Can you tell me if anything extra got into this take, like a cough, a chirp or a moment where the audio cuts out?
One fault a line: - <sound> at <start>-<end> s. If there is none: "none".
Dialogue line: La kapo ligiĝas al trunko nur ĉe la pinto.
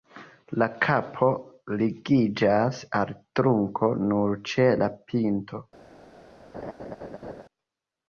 - laugh at 6.5-7.4 s